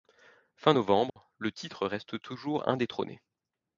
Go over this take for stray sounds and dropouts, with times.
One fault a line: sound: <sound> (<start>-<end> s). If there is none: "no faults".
sound: dropout (1.1-1.2 s)